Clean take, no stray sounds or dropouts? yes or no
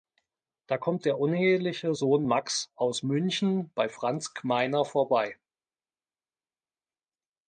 yes